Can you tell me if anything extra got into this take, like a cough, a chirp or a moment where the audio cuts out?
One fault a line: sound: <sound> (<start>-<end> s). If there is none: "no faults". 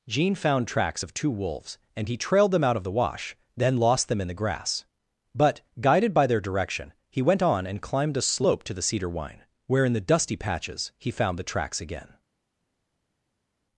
no faults